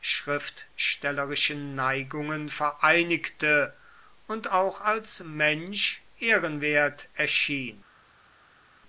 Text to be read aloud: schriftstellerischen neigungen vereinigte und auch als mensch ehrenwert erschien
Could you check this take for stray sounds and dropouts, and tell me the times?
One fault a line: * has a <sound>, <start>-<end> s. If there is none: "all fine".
all fine